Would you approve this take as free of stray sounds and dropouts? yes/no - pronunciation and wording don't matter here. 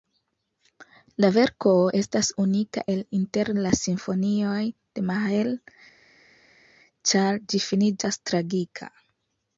yes